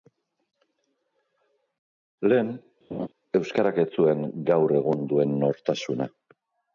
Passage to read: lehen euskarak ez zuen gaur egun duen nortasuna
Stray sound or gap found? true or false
true